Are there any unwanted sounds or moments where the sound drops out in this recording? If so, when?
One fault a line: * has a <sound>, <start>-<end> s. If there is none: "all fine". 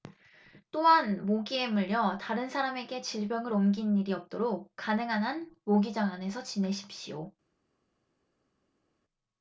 all fine